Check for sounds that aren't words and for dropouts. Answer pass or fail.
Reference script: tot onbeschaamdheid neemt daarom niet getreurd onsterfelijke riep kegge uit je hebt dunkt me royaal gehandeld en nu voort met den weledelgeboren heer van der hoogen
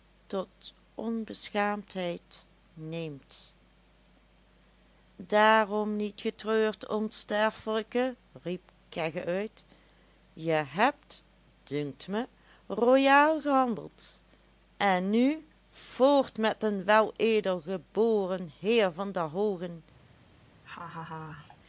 fail